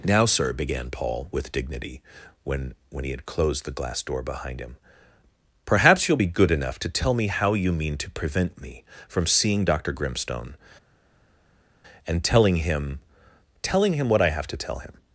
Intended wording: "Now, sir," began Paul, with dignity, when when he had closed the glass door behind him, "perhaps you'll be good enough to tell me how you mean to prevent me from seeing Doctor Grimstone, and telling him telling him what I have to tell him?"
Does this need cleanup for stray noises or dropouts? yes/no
no